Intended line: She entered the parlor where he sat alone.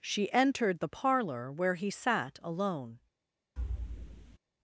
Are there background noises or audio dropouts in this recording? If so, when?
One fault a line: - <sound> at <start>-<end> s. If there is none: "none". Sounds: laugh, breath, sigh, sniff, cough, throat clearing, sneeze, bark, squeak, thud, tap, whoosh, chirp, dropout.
- thud at 3.6-4.4 s